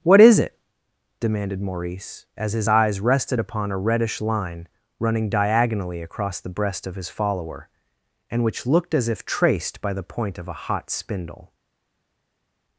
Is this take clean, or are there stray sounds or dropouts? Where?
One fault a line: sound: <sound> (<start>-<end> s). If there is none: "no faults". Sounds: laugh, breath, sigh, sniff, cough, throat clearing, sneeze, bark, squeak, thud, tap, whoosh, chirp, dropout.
no faults